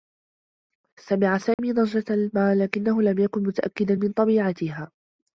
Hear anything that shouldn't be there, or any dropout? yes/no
yes